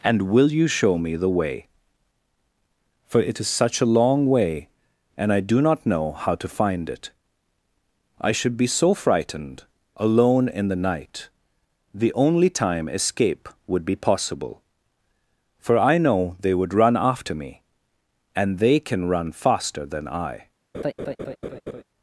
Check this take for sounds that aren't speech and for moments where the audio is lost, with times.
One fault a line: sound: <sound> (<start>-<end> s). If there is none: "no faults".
sound: laugh (20.7-21.8 s)